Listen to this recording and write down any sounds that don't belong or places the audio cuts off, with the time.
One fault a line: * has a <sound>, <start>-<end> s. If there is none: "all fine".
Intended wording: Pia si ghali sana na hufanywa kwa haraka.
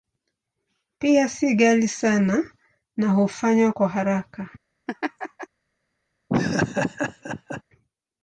* has a laugh, 4.9-5.5 s
* has a laugh, 6.3-7.6 s